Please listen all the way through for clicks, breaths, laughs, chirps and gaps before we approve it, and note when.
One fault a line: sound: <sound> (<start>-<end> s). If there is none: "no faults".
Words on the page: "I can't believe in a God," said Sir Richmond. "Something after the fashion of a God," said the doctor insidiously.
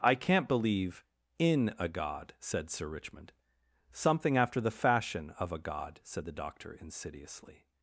no faults